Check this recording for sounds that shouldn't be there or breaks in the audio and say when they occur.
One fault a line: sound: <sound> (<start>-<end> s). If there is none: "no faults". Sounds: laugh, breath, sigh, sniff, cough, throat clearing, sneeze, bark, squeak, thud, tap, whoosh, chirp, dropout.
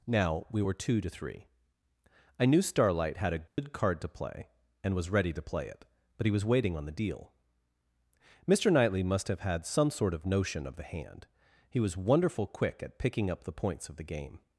sound: dropout (3.5-3.6 s)